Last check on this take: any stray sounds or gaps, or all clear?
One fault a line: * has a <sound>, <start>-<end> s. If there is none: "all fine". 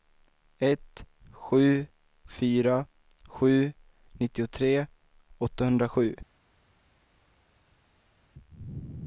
all fine